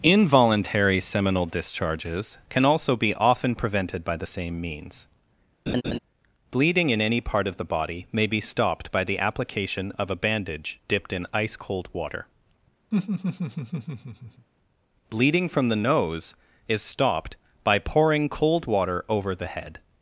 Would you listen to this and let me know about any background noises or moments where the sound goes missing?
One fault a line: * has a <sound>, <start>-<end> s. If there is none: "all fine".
* has a laugh, 5.7-6.0 s
* has a laugh, 12.9-14.5 s